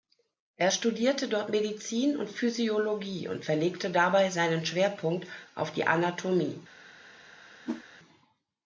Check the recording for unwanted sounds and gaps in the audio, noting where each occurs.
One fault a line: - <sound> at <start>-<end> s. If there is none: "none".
- whoosh at 7.6-7.8 s